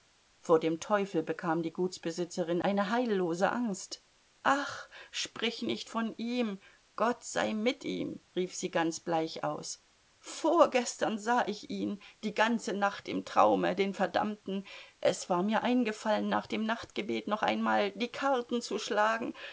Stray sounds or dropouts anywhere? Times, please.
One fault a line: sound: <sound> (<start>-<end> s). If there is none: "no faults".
no faults